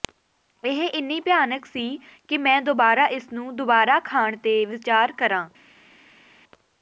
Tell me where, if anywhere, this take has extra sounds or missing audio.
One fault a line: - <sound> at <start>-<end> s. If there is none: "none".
none